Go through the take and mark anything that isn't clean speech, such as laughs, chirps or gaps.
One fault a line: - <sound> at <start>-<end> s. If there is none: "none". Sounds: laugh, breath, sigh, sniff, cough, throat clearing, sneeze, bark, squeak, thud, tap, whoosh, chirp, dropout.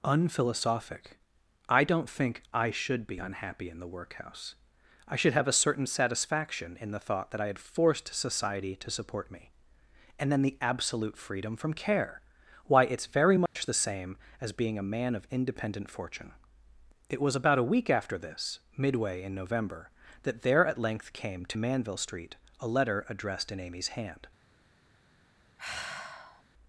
- dropout at 13.5-13.6 s
- sigh at 25.6-26.4 s